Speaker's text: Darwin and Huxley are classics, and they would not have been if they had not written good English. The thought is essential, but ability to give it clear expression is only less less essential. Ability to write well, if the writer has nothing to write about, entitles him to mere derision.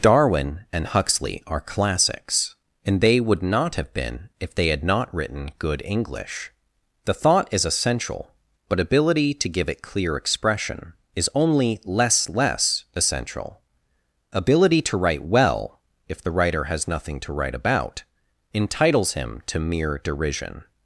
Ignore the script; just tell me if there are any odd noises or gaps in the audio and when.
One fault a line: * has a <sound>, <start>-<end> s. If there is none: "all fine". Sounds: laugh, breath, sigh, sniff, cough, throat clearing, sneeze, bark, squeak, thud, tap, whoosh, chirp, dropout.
all fine